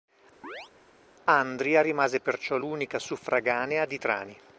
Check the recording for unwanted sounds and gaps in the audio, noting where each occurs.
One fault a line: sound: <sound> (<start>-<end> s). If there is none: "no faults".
sound: chirp (0.4-0.7 s)